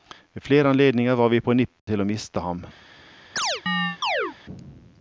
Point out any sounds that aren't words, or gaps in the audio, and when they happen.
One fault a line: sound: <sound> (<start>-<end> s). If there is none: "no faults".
sound: dropout (1.8-1.9 s)
sound: chirp (3.4-4.4 s)